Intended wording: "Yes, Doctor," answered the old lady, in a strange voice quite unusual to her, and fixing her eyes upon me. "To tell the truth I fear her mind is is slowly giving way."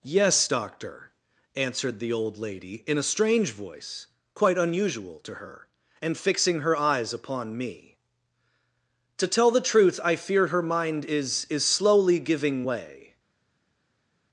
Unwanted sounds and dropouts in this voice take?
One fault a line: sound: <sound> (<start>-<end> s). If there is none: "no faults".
no faults